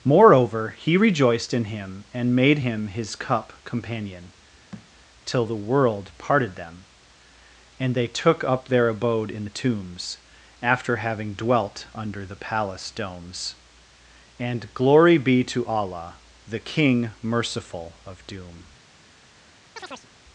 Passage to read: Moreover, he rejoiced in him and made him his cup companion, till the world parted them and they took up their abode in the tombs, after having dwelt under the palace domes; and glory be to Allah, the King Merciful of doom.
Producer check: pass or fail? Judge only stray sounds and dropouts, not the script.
fail